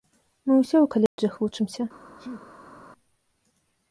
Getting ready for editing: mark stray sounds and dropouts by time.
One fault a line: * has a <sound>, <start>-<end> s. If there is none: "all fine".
* has a dropout, 1.1-1.2 s
* has a sneeze, 2.2-2.8 s